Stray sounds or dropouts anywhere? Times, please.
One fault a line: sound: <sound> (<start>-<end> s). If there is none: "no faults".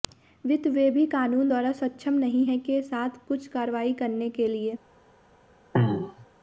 sound: throat clearing (5.7-6.3 s)